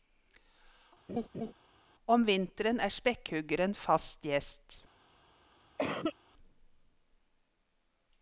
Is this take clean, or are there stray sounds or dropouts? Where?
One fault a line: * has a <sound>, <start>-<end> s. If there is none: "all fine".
* has a laugh, 1.1-1.5 s
* has a cough, 5.8-6.2 s